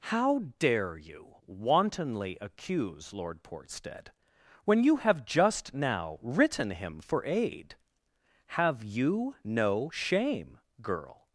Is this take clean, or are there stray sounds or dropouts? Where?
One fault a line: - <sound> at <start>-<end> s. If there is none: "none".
none